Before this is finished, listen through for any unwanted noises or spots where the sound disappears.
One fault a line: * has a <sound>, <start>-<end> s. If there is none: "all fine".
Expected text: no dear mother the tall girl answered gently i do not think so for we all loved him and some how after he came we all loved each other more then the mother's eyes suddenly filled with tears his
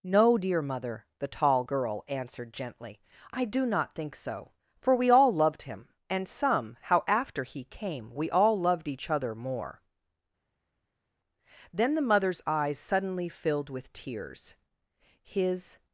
all fine